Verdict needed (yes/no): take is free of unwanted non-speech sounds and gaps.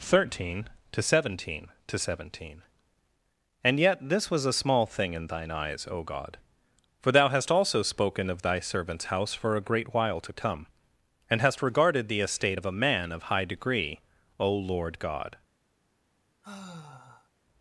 no